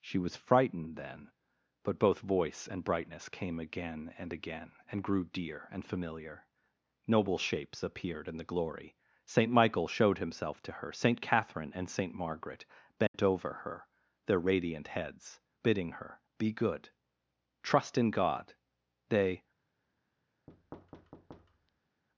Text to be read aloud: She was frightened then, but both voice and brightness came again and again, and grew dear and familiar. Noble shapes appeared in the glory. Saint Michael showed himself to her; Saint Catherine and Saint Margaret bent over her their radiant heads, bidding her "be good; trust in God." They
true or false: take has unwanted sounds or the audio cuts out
true